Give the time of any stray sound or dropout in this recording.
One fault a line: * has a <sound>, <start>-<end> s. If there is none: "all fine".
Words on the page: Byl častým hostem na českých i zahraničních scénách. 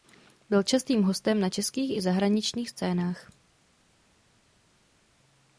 all fine